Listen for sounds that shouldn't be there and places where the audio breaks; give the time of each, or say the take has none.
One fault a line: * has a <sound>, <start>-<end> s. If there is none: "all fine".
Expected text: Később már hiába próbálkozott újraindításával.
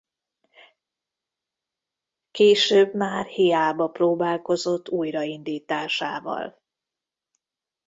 all fine